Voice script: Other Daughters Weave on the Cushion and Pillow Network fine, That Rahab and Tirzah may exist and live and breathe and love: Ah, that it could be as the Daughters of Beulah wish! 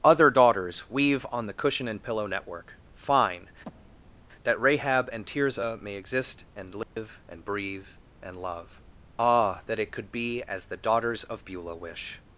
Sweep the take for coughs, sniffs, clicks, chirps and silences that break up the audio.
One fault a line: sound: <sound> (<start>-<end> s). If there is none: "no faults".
sound: breath (3.6-4.2 s)
sound: dropout (6.8-7.0 s)